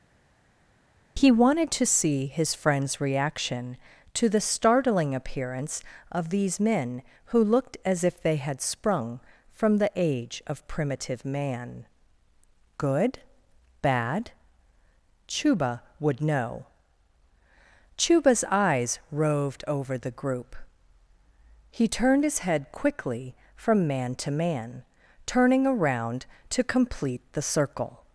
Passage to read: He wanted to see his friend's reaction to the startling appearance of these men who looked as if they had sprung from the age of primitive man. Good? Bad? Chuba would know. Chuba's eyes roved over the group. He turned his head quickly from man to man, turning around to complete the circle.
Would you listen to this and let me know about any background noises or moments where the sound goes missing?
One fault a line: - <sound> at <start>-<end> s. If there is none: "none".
none